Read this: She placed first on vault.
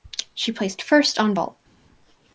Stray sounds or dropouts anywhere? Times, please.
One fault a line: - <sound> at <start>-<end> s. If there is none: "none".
none